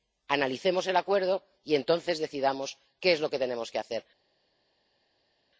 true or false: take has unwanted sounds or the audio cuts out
false